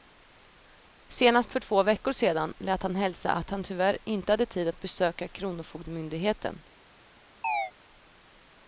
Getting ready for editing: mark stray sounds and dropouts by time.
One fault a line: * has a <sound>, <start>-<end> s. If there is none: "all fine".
* has a chirp, 7.4-7.7 s